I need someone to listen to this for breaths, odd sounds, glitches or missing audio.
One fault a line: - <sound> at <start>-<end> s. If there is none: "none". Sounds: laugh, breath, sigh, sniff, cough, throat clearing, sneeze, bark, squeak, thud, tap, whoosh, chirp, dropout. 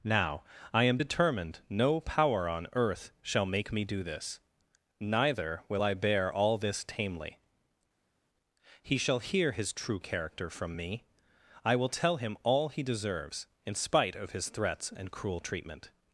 none